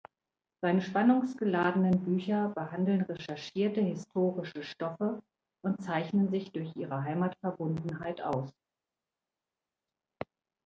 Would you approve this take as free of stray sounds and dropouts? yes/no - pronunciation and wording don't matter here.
yes